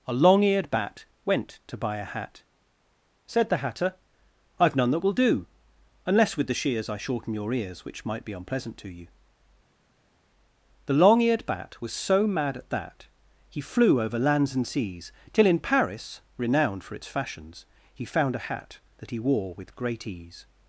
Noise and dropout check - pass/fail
pass